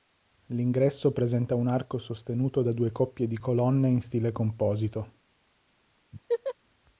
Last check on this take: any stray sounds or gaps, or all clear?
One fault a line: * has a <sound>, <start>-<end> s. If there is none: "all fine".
* has a laugh, 6.1-6.5 s